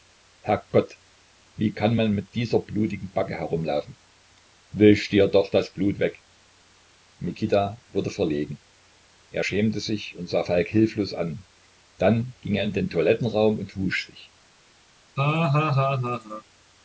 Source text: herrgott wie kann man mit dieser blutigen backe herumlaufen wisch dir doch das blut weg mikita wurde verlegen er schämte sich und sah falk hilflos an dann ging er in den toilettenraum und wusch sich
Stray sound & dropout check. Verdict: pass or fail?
fail